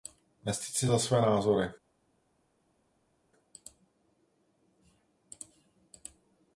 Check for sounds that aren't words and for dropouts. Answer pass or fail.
pass